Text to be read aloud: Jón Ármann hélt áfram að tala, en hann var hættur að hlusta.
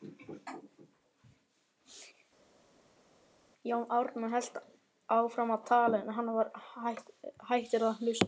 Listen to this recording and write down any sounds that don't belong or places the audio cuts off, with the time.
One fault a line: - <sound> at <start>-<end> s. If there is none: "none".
none